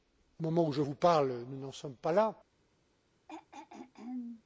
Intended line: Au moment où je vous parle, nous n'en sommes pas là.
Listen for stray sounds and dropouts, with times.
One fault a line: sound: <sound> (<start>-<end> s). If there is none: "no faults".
sound: throat clearing (3.3-4.4 s)